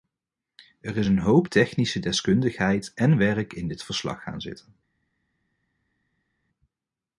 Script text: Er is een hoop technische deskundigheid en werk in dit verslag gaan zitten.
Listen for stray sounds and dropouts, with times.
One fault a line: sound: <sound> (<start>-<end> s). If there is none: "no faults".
no faults